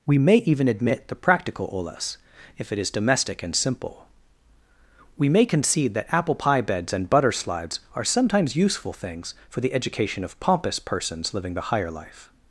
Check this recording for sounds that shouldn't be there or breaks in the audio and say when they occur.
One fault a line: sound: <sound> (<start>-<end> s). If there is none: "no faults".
no faults